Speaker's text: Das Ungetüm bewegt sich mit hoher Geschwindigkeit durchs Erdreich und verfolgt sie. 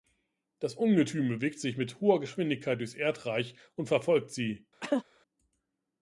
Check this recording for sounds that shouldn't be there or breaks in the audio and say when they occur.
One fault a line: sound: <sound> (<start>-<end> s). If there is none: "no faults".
sound: cough (4.8-5.0 s)